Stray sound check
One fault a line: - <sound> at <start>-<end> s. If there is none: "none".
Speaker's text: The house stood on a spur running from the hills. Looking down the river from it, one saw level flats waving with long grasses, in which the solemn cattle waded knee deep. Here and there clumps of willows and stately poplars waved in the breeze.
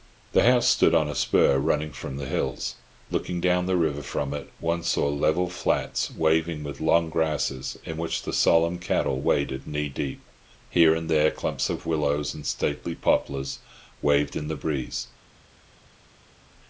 none